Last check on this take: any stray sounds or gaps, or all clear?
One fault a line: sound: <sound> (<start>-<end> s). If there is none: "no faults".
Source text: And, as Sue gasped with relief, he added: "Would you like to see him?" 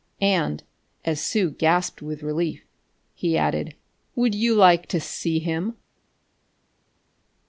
no faults